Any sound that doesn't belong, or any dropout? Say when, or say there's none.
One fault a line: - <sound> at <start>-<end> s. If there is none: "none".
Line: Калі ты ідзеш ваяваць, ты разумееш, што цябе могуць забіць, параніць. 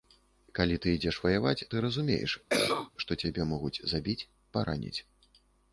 - cough at 2.5-2.9 s